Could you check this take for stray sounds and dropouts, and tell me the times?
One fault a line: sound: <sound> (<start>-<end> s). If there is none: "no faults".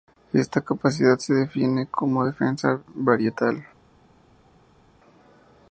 no faults